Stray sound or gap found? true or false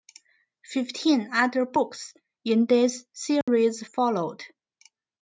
true